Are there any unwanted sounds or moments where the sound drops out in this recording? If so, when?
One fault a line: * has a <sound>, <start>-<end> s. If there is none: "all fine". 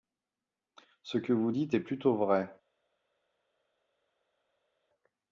all fine